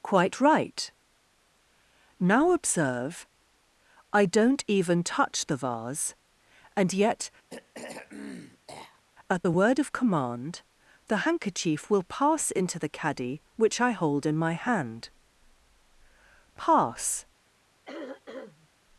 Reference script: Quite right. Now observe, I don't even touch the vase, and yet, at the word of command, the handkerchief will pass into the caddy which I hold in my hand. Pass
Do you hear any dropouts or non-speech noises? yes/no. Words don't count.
yes